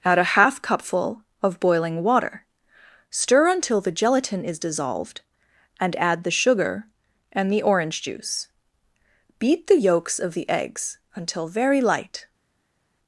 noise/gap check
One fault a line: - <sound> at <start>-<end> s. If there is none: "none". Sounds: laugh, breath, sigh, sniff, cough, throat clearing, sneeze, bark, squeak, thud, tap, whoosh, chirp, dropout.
none